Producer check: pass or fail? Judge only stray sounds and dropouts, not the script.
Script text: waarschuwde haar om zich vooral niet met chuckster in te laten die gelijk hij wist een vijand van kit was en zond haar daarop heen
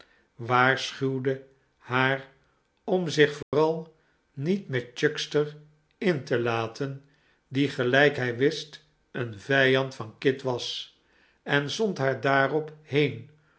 fail